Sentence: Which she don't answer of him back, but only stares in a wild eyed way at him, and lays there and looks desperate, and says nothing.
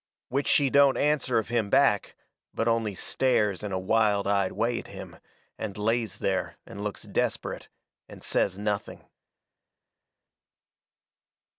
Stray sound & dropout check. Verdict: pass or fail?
pass